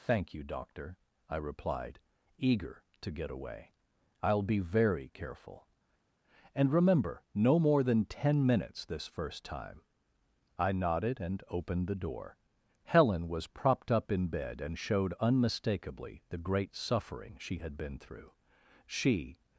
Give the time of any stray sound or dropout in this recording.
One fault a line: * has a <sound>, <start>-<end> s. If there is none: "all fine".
all fine